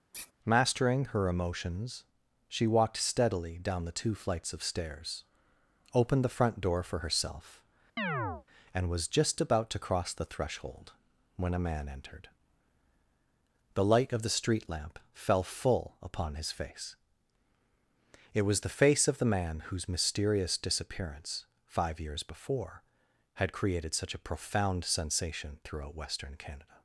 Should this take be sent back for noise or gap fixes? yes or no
yes